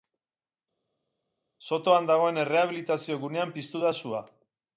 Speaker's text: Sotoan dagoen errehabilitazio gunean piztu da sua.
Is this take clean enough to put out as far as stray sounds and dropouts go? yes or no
yes